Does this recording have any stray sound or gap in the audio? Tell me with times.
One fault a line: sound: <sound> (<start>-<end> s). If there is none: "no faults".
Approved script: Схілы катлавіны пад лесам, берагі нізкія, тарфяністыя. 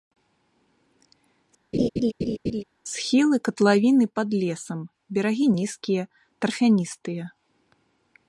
sound: laugh (1.7-2.6 s)